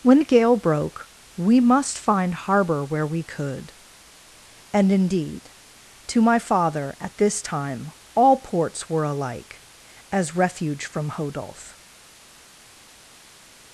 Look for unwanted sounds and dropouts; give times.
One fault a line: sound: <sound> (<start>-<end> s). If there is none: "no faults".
no faults